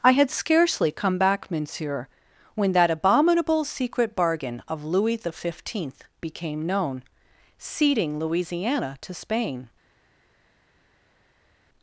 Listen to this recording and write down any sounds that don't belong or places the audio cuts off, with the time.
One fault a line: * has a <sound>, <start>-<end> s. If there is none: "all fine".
all fine